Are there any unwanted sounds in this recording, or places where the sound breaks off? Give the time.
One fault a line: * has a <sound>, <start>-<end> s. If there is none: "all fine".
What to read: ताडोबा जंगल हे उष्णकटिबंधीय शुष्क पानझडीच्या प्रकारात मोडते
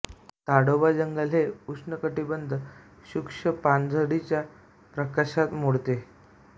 all fine